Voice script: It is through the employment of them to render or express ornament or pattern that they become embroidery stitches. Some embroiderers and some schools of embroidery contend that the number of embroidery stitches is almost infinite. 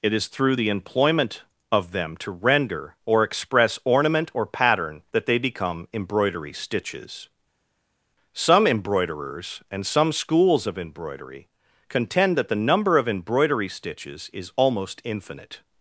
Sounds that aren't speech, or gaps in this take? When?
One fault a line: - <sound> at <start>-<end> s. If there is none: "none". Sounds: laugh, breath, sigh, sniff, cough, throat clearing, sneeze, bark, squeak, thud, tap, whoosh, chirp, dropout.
none